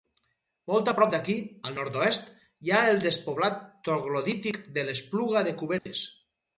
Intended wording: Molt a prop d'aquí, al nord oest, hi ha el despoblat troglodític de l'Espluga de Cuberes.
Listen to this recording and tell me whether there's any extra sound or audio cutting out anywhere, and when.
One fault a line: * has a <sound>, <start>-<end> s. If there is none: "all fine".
* has a dropout, 5.8-5.9 s